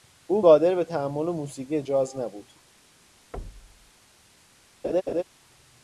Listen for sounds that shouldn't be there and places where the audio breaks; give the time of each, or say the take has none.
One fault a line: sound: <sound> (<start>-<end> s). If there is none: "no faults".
sound: thud (3.3-3.9 s)
sound: laugh (4.8-5.2 s)